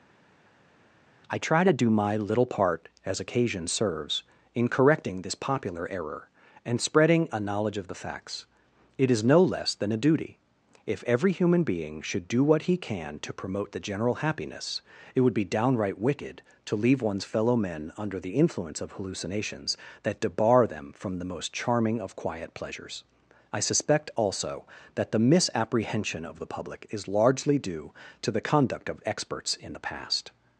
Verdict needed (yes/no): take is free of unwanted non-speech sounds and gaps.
yes